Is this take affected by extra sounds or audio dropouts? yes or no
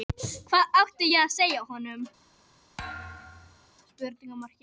yes